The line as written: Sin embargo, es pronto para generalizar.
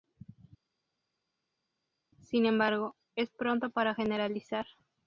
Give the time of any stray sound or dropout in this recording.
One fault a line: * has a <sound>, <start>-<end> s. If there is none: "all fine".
all fine